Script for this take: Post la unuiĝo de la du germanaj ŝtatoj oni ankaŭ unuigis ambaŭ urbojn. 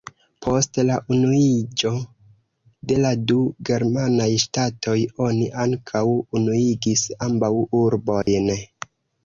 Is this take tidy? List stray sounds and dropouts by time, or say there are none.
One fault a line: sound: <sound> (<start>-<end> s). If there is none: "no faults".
sound: dropout (8.2-8.3 s)